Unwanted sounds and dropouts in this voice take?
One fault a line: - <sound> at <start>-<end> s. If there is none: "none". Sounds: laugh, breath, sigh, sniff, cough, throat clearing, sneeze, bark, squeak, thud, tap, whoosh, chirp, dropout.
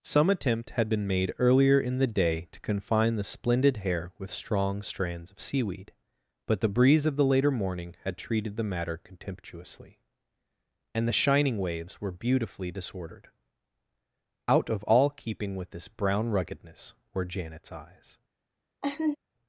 - laugh at 18.8-19.2 s